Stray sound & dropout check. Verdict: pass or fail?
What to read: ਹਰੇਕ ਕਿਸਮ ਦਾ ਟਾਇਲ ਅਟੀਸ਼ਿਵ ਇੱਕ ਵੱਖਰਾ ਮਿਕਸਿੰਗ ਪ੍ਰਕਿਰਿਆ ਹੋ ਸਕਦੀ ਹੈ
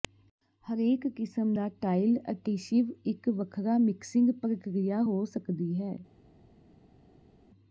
pass